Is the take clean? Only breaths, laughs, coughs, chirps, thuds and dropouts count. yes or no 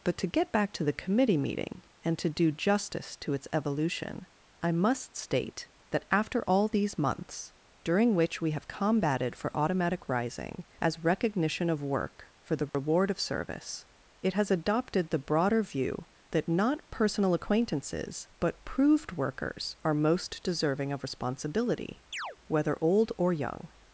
no